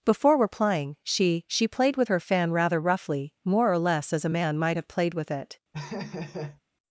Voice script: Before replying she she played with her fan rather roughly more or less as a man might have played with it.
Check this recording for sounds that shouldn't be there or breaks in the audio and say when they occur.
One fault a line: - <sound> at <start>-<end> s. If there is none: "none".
- laugh at 5.7-6.6 s